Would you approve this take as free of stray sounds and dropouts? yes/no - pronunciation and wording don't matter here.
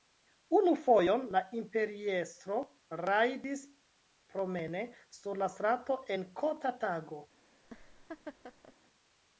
no